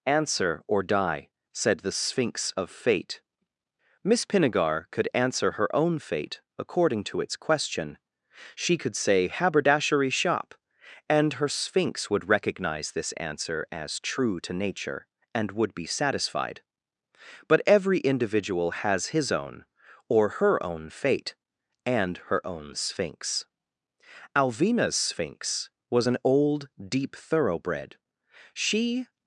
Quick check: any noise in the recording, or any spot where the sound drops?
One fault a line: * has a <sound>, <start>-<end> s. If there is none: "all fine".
all fine